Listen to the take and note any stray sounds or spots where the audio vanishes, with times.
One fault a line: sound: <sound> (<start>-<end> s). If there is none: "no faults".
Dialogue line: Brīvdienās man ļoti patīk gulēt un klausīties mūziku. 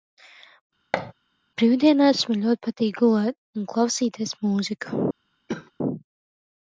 sound: thud (0.9-1.1 s)
sound: cough (5.5-5.7 s)